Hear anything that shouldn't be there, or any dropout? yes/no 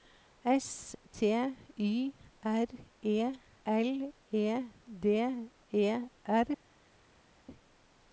no